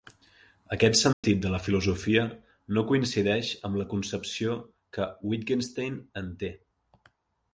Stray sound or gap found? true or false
true